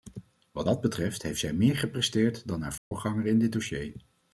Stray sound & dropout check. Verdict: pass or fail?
fail